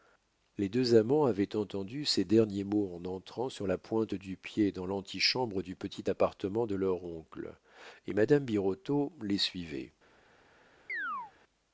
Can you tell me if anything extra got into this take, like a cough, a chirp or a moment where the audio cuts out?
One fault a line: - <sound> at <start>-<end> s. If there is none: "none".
- chirp at 10.9-11.3 s